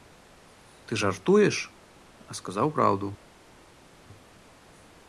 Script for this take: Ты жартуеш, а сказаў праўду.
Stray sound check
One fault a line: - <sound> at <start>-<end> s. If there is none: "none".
none